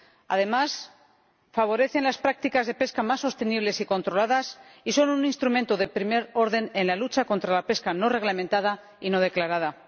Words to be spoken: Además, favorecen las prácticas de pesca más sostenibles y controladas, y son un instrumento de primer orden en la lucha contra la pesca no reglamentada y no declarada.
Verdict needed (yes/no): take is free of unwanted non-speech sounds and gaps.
yes